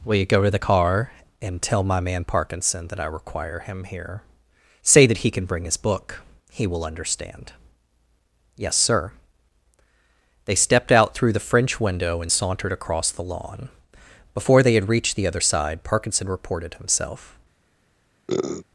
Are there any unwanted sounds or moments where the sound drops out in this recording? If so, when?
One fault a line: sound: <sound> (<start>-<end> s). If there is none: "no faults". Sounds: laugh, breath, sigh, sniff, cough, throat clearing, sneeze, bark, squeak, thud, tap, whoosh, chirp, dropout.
sound: sniff (18.3-18.7 s)